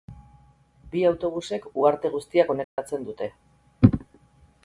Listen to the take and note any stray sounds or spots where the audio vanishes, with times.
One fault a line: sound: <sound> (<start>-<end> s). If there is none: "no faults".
sound: dropout (2.6-2.8 s)